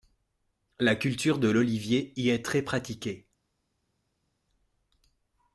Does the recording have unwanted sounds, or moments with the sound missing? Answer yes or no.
no